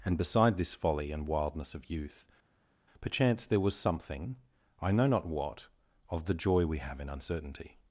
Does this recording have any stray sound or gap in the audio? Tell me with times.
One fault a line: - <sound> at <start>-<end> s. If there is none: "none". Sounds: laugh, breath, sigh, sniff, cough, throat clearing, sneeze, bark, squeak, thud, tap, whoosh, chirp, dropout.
none